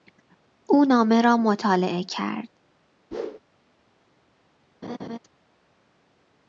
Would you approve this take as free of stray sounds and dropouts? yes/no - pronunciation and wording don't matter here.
no